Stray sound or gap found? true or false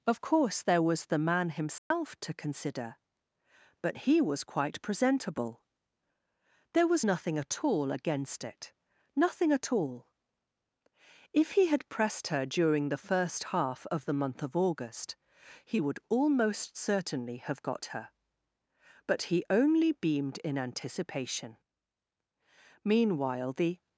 true